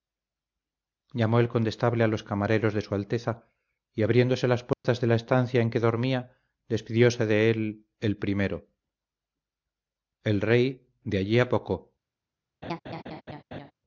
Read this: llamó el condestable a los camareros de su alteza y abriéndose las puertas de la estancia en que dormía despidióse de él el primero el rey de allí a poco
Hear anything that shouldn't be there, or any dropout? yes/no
yes